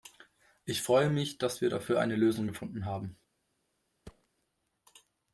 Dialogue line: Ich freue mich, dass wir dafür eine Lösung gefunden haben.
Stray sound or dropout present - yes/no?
yes